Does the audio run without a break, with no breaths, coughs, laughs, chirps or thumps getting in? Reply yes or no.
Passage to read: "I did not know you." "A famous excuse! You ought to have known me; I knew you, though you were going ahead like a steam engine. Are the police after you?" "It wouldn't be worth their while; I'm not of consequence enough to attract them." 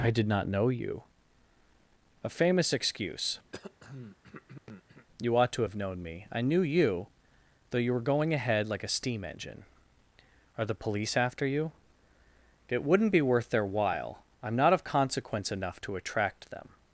no